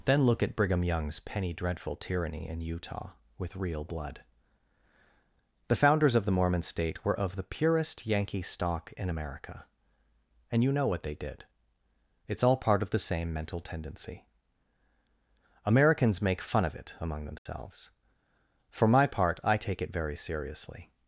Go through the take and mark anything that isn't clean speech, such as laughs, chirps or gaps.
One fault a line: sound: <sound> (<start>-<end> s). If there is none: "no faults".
sound: dropout (17.4-17.5 s)